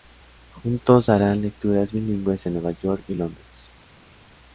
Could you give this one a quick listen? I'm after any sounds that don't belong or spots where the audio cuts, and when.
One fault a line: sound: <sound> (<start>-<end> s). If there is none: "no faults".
no faults